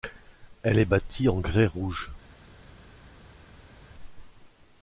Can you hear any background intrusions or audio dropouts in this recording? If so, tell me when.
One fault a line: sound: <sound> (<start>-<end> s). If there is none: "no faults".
no faults